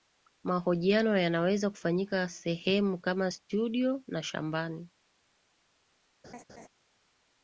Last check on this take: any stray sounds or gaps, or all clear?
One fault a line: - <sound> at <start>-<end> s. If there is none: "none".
- laugh at 6.2-6.7 s